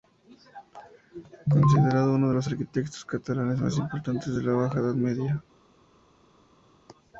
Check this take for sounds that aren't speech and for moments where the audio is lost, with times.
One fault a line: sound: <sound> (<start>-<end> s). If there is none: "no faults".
no faults